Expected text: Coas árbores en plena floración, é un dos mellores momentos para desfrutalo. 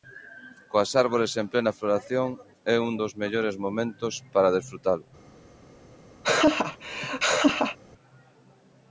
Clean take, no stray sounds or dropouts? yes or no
no